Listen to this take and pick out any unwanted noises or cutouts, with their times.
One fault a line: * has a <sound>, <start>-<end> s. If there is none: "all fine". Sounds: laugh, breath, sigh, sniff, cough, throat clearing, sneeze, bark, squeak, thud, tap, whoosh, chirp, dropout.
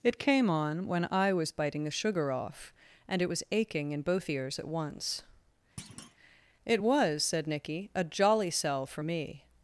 * has a thud, 5.8-6.2 s